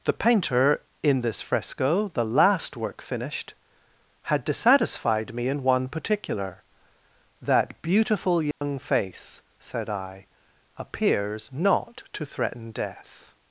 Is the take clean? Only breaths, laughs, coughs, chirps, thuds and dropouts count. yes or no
no